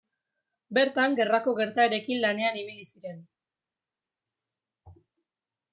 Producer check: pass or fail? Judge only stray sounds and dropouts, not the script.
pass